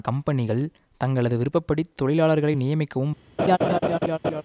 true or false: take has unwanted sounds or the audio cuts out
true